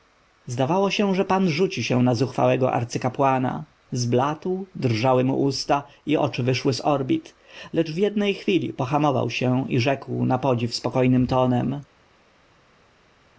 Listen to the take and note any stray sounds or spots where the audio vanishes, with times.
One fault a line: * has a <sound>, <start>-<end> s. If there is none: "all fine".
all fine